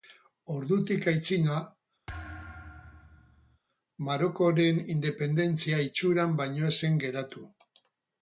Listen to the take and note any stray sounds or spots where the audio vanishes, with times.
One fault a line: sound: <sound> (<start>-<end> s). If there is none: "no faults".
sound: thud (2.1-3.6 s)